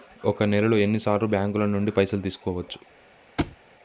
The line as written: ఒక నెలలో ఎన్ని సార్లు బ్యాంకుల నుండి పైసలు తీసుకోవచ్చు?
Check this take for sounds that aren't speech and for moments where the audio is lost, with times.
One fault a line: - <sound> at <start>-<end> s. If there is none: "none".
- thud at 3.4-3.6 s